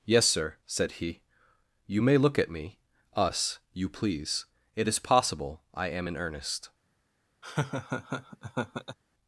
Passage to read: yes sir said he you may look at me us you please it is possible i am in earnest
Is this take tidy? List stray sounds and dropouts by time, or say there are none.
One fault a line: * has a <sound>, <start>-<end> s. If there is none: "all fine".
* has a laugh, 7.4-9.0 s